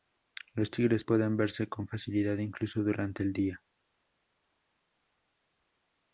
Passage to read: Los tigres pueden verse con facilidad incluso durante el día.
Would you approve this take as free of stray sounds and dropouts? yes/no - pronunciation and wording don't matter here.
yes